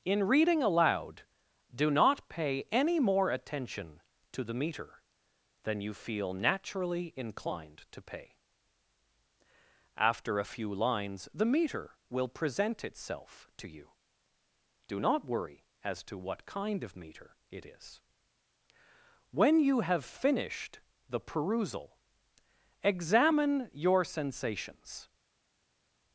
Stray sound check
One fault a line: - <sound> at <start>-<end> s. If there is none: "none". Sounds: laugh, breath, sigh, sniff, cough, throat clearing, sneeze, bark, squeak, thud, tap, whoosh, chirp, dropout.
none